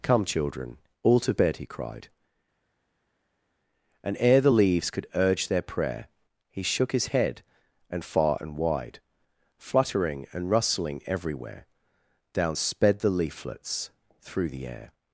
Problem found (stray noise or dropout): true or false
false